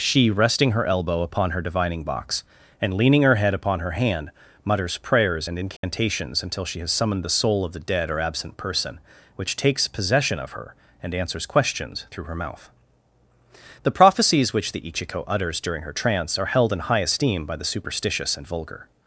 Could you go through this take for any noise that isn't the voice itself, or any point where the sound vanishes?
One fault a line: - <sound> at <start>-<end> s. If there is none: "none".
- dropout at 5.8-5.8 s